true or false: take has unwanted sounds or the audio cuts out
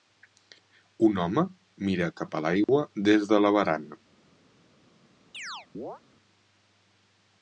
true